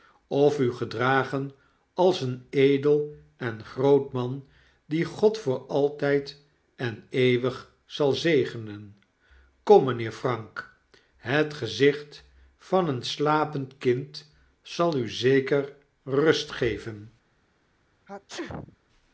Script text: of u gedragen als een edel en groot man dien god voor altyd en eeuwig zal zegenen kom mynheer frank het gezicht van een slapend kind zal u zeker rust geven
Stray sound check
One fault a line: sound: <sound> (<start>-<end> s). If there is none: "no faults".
sound: sneeze (18.1-18.8 s)